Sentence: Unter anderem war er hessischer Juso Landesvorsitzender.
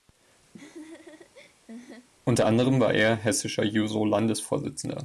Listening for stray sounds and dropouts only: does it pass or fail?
fail